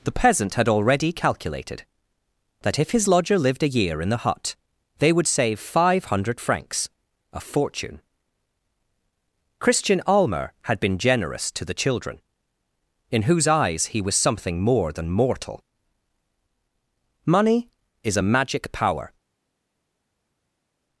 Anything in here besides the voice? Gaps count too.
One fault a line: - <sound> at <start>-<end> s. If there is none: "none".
none